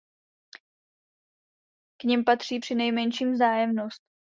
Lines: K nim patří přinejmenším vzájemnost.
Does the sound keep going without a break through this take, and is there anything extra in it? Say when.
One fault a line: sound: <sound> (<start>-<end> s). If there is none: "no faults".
no faults